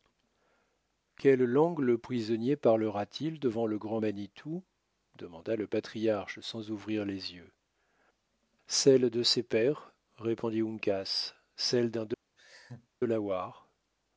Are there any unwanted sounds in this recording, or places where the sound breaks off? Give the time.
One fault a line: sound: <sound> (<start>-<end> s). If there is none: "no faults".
sound: laugh (12.4-12.9 s)